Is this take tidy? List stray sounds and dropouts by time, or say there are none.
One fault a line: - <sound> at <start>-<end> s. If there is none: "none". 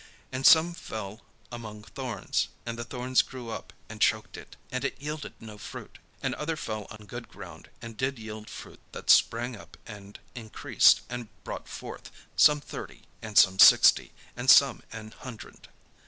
- dropout at 7.0-7.0 s